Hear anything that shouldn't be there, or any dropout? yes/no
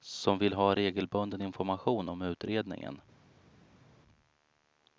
no